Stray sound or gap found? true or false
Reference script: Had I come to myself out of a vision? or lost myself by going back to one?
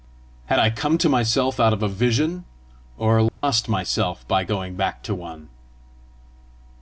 true